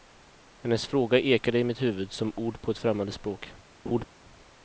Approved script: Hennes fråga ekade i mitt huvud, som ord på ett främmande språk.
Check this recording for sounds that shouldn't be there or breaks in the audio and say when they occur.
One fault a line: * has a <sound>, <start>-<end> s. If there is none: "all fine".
* has a laugh, 3.8-4.1 s